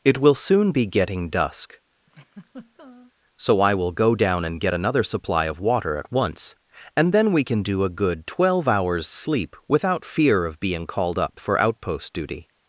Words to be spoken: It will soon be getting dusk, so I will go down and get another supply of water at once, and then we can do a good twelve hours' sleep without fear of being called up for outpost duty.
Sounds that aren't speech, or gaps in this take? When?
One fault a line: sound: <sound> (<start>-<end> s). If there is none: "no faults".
sound: laugh (2.1-3.1 s)